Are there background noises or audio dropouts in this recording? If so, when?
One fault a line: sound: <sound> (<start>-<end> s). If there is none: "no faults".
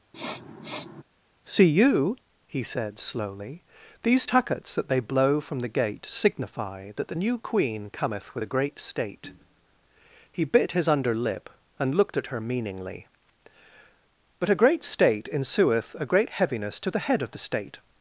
sound: sniff (0.1-1.0 s)